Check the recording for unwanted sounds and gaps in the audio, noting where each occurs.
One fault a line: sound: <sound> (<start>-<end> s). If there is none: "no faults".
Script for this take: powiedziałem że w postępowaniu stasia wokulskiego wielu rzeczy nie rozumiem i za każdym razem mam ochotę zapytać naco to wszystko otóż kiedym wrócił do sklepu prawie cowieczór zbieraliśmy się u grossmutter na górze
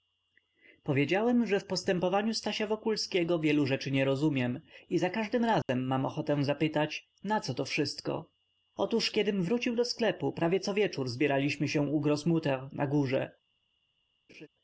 sound: dropout (5.6-5.7 s)
sound: laugh (14.3-14.5 s)